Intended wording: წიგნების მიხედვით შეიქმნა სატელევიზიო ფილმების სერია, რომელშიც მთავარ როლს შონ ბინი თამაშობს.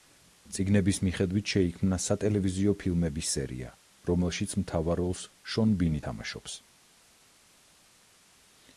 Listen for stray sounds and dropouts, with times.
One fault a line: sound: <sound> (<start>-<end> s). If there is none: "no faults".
no faults